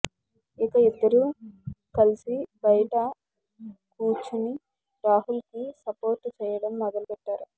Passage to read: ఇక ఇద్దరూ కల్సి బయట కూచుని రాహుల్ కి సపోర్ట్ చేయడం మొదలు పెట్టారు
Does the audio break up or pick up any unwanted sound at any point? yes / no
no